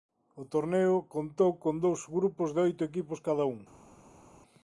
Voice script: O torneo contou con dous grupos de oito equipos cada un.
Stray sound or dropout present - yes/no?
no